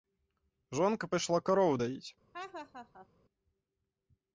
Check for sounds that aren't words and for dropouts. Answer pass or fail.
fail